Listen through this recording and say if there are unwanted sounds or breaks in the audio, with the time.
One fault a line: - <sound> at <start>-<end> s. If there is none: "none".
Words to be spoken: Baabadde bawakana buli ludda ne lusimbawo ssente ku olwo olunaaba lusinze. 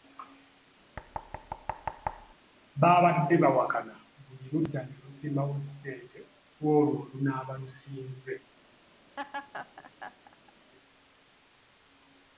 - thud at 1.0-2.3 s
- laugh at 9.2-10.5 s